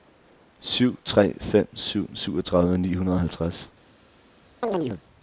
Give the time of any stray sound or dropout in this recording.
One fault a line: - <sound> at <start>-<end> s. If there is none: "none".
- chirp at 4.6-5.0 s